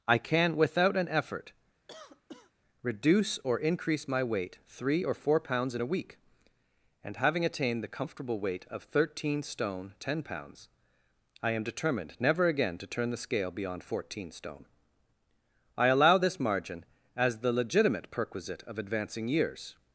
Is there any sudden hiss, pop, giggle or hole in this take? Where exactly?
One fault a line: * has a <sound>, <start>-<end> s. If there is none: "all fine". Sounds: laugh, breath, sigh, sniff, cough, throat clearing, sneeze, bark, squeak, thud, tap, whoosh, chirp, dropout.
* has a cough, 1.9-2.5 s